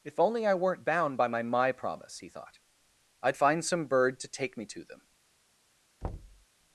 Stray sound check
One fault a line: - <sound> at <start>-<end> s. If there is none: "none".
- thud at 6.0-6.5 s